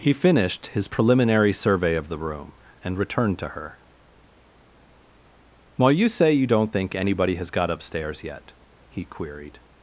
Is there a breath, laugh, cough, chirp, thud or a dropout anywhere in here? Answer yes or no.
no